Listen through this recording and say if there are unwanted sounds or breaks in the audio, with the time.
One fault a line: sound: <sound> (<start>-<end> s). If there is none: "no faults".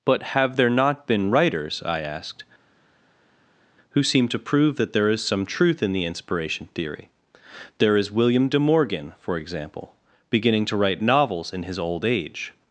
no faults